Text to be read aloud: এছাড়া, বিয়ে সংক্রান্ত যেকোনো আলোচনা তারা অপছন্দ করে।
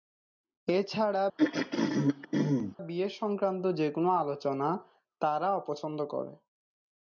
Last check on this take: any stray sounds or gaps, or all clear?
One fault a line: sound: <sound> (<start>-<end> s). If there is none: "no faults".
sound: throat clearing (1.4-2.8 s)